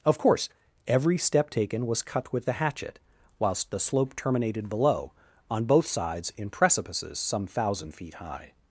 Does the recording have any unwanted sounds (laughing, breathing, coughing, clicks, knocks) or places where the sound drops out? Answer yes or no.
no